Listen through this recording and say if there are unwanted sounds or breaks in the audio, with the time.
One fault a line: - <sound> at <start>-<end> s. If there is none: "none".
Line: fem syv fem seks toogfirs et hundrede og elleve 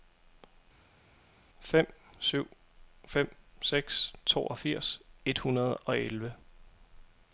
none